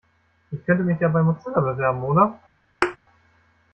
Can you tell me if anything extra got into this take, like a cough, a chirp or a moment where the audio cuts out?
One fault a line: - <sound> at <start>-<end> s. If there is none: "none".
- thud at 2.8-3.0 s